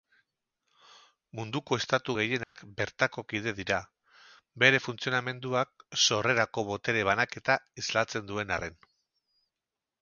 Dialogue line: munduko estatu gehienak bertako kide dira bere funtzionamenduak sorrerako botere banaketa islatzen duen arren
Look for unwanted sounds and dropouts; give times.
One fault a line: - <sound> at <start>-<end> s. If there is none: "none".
- dropout at 2.4-2.6 s